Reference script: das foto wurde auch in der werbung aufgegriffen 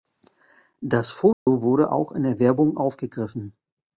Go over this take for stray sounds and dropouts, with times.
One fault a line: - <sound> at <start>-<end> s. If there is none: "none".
- dropout at 1.3-1.5 s